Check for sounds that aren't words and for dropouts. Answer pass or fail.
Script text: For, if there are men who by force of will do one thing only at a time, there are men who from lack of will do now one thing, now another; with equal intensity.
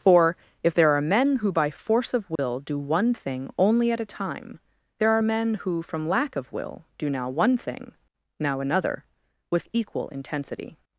fail